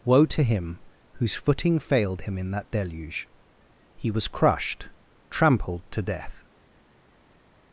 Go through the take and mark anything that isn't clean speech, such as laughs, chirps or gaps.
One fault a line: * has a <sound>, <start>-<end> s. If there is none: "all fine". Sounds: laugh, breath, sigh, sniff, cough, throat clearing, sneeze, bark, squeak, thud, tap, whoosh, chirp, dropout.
all fine